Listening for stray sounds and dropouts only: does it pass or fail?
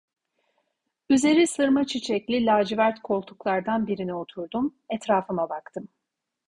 pass